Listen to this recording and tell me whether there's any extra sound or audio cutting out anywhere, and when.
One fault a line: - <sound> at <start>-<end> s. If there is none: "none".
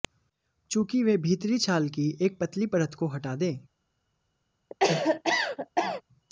- cough at 4.7-6.0 s